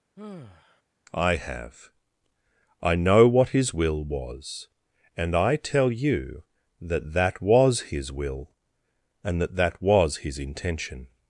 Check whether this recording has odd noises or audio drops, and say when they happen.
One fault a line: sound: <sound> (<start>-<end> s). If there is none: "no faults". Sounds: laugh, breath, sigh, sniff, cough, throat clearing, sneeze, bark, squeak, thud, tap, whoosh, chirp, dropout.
sound: sigh (0.2-0.8 s)